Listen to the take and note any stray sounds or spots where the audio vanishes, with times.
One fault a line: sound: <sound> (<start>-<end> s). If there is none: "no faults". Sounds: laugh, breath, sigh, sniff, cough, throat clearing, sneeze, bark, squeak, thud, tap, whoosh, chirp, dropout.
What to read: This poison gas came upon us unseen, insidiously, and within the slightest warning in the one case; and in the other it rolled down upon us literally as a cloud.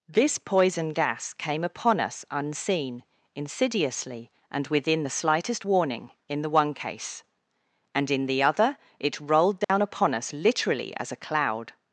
sound: dropout (9.6-9.7 s)